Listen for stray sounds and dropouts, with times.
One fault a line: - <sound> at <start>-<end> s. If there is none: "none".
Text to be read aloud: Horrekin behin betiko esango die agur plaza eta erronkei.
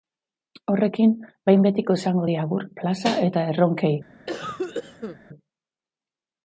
- cough at 4.3-5.2 s